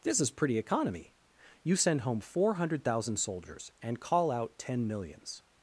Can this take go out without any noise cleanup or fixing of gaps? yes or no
yes